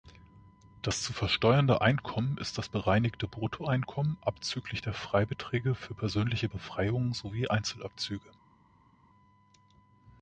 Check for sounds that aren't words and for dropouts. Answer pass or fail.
pass